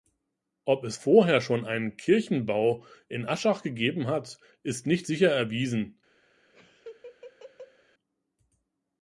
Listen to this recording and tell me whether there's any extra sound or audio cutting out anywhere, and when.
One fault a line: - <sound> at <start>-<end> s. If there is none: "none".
- laugh at 6.5-7.8 s